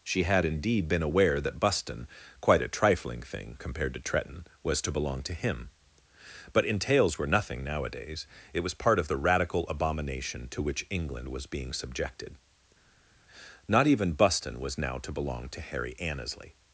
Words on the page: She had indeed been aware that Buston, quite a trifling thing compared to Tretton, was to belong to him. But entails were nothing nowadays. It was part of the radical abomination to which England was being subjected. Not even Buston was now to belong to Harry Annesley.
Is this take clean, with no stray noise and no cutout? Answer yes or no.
yes